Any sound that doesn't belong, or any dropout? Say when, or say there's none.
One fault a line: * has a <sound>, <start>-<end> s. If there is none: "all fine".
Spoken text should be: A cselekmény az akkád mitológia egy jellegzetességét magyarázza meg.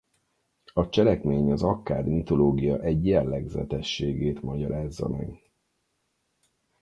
all fine